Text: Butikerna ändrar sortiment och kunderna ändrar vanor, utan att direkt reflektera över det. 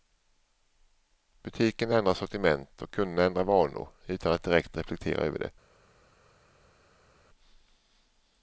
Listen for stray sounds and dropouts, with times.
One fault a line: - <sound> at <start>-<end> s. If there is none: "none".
none